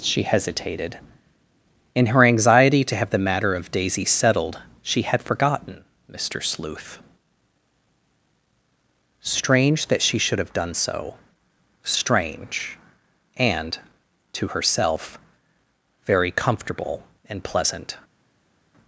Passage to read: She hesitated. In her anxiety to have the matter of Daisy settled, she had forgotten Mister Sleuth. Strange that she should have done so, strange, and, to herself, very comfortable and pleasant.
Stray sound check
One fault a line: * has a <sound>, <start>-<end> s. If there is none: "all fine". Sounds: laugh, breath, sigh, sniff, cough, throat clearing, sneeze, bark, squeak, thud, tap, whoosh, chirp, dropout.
all fine